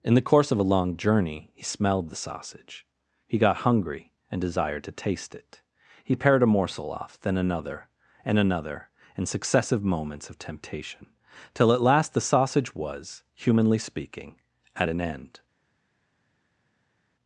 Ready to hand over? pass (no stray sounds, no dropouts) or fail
pass